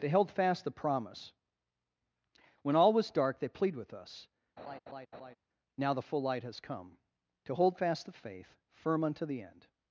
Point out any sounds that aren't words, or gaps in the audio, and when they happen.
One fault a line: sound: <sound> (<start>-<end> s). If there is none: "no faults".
sound: laugh (4.6-5.4 s)